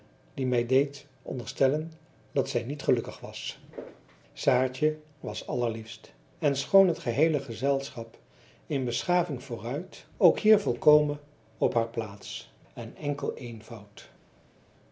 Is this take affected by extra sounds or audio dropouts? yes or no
no